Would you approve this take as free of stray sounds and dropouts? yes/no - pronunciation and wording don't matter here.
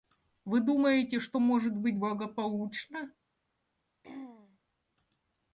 no